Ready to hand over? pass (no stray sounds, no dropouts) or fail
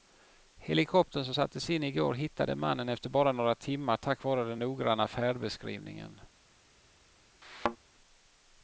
fail